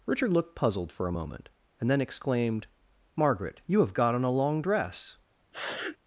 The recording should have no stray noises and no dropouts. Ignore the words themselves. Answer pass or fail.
fail